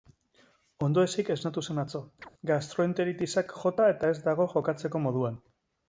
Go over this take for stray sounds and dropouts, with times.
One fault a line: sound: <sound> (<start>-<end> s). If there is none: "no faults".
sound: chirp (2.2-2.3 s)